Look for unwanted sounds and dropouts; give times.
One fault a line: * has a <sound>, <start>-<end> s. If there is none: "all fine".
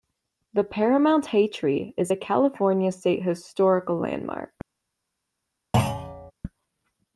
* has a thud, 5.7-6.3 s